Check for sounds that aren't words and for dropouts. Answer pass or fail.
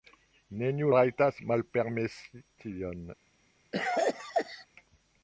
fail